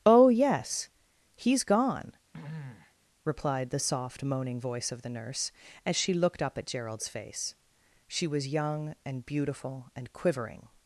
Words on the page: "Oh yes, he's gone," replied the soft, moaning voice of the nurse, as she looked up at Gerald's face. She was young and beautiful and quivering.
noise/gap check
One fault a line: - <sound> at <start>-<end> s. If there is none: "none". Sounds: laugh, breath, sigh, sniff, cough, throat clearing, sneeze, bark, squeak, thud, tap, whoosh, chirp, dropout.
- throat clearing at 2.3-2.9 s